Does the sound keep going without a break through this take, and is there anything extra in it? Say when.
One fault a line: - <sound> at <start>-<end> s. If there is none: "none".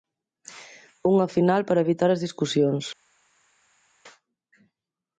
none